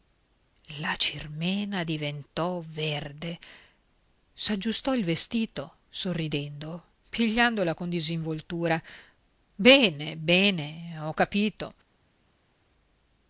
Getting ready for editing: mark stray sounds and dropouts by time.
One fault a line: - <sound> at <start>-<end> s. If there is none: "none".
none